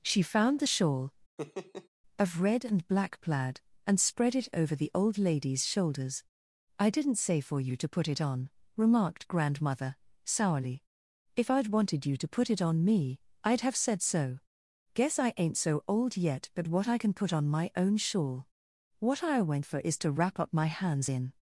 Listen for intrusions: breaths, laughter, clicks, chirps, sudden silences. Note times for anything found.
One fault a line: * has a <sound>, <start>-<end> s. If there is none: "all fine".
* has a laugh, 1.4-1.9 s